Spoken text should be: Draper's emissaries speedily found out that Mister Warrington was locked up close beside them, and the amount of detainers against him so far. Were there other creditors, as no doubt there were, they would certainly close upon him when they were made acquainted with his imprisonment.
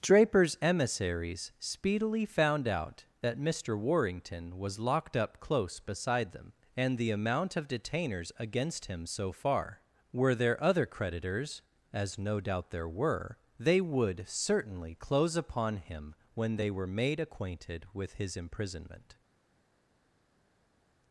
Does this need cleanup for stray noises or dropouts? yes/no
no